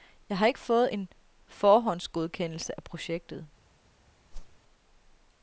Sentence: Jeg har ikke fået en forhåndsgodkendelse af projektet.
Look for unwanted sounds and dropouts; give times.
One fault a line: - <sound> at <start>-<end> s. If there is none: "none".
- whoosh at 4.3-4.6 s